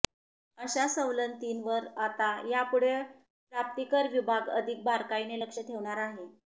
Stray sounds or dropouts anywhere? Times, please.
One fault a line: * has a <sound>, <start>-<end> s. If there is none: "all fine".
all fine